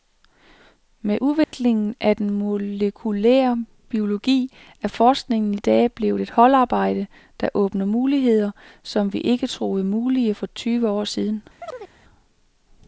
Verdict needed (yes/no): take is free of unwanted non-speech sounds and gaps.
no